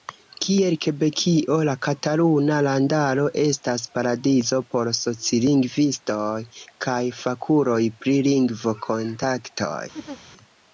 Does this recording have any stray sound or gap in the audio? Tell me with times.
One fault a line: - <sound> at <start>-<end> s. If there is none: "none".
- laugh at 9.9-10.2 s